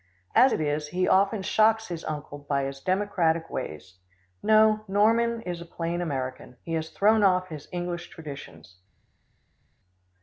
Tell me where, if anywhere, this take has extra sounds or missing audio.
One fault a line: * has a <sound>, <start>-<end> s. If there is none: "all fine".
all fine